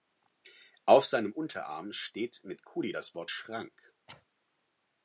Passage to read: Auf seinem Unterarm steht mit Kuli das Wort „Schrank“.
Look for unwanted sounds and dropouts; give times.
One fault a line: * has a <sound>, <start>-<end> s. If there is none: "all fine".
* has a cough, 4.1-4.2 s